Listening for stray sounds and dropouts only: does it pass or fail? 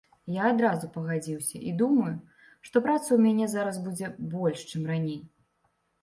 pass